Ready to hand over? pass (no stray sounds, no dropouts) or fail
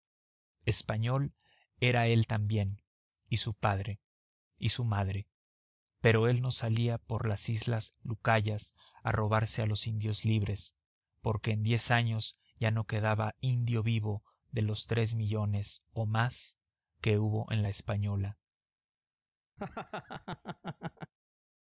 fail